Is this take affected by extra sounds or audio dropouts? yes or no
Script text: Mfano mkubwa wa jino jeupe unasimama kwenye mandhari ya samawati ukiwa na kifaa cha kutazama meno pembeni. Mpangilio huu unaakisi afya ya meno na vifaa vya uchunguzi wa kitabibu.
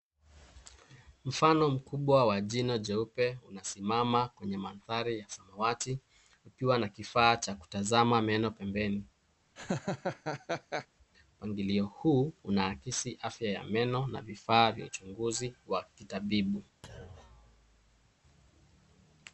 yes